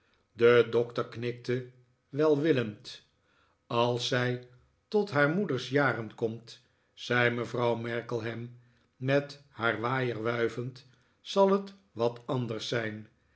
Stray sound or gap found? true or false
false